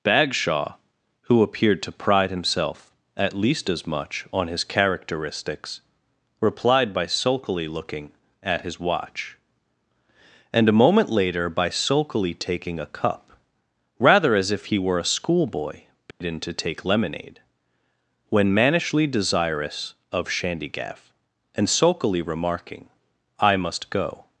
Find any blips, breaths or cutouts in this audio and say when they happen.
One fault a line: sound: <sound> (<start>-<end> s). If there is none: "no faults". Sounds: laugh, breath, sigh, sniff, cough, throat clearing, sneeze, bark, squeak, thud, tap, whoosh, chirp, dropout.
sound: dropout (16.1-16.2 s)